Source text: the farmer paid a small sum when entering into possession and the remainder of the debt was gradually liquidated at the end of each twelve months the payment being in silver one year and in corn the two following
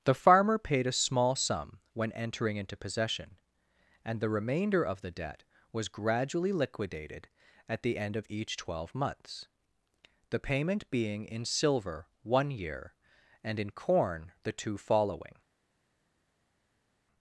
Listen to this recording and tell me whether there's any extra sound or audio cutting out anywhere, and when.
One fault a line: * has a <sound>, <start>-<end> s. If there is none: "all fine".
all fine